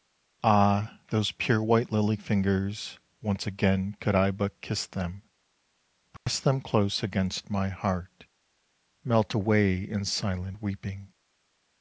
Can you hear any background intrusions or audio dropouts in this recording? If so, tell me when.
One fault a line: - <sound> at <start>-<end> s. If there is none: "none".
- dropout at 6.2-6.3 s